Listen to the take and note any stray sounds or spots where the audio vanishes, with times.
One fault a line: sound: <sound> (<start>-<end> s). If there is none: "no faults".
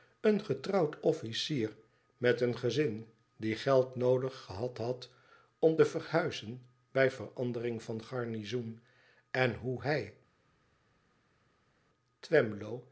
no faults